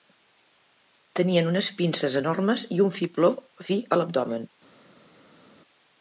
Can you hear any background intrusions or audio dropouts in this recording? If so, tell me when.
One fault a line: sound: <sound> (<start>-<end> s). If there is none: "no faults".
no faults